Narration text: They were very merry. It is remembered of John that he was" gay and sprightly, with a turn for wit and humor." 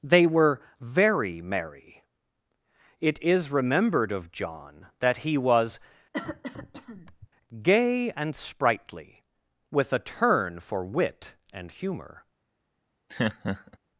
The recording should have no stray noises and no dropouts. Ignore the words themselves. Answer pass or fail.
fail